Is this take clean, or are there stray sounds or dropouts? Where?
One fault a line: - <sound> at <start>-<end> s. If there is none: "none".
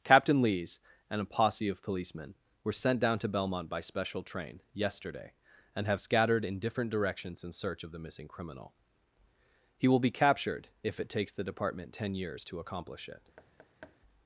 - thud at 13.4-14.0 s